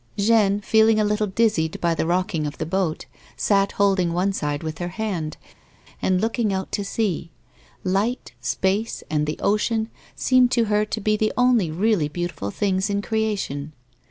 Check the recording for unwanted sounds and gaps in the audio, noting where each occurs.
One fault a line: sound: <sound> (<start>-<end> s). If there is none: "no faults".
no faults